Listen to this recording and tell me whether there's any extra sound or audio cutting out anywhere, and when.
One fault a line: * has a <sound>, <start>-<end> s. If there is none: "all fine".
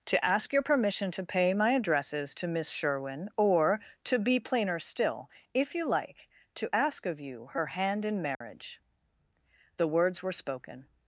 * has a dropout, 8.3-8.4 s